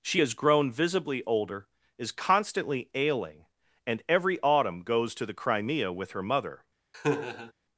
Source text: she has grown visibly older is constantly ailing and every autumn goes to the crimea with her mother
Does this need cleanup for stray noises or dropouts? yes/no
yes